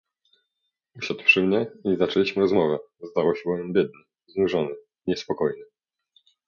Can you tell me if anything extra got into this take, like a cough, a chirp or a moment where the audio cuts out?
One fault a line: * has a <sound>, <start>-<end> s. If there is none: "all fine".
all fine